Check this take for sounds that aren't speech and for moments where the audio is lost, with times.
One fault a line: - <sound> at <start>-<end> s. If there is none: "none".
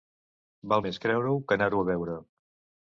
none